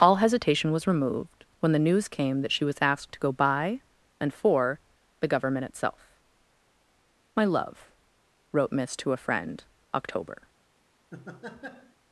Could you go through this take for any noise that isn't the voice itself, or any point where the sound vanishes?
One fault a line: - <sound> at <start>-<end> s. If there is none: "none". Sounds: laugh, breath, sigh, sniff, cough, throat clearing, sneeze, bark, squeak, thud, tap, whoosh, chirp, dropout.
- laugh at 11.1-12.0 s